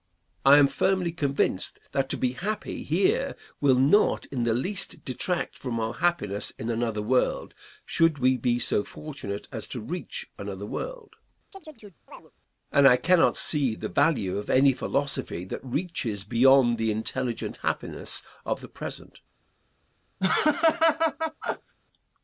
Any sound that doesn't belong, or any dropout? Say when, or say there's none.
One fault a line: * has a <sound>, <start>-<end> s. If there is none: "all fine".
* has a chirp, 11.5-12.3 s
* has a laugh, 20.2-21.7 s